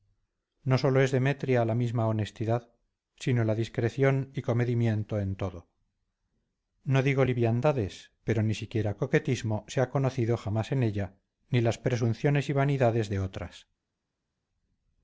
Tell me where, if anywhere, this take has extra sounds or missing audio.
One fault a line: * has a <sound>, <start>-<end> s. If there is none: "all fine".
all fine